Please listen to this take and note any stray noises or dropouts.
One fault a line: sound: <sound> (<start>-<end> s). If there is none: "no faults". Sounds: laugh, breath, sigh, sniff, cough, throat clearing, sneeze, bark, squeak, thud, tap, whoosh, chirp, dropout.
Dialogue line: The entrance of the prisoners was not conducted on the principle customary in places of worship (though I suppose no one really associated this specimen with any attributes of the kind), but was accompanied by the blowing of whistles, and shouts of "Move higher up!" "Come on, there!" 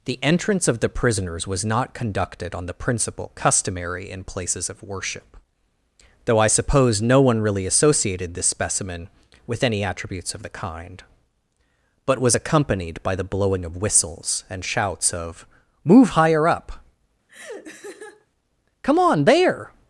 sound: laugh (17.3-18.3 s)